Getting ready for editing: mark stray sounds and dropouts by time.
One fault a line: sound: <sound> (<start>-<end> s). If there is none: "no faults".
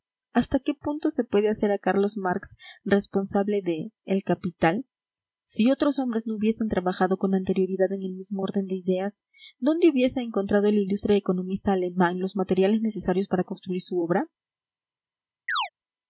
sound: chirp (15.5-15.7 s)